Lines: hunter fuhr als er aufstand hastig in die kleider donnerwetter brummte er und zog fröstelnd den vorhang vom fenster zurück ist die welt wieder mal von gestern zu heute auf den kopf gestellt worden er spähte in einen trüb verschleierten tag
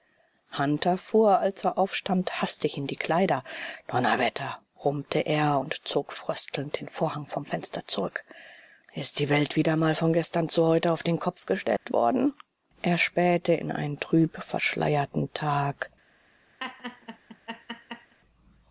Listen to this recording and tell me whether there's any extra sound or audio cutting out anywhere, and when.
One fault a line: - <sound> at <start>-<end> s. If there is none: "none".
- dropout at 11.8-11.9 s
- laugh at 16.6-18.1 s